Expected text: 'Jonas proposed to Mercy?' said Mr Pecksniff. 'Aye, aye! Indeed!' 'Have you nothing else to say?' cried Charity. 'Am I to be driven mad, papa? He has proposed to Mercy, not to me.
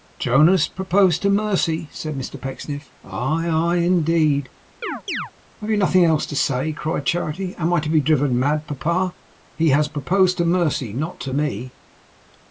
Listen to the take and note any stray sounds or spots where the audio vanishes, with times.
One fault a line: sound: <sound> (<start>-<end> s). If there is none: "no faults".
sound: chirp (4.8-5.3 s)